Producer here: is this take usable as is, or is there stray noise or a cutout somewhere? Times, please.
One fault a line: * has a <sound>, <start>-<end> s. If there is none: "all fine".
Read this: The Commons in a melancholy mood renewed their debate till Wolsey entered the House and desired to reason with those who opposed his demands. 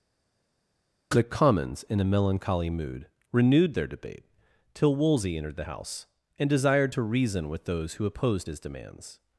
all fine